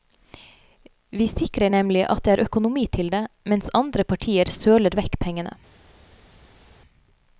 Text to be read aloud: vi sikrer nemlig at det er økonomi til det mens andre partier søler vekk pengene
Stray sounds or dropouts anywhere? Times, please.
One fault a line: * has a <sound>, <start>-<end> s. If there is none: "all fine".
all fine